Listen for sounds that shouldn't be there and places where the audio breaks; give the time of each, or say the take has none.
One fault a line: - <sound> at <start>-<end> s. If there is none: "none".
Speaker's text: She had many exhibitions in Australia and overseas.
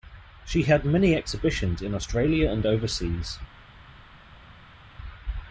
none